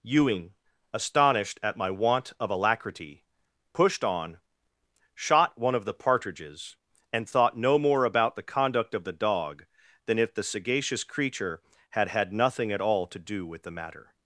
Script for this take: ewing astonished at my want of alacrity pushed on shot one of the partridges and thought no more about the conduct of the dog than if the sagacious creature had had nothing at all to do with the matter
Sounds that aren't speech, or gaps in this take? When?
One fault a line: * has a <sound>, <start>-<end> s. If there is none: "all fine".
all fine